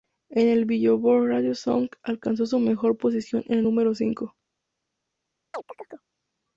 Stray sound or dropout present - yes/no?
yes